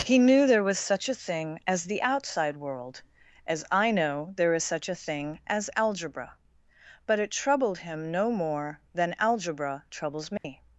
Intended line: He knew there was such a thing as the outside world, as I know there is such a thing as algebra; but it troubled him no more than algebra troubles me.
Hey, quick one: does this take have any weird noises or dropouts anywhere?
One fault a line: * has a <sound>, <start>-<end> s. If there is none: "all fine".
* has a dropout, 10.4-10.4 s